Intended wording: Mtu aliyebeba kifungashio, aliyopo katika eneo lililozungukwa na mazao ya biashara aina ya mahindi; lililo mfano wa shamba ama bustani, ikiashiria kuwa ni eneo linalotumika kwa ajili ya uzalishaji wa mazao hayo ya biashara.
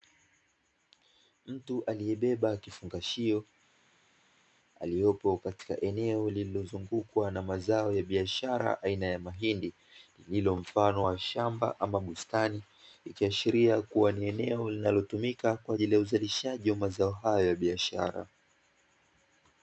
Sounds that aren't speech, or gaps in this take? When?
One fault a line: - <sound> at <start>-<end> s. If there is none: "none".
none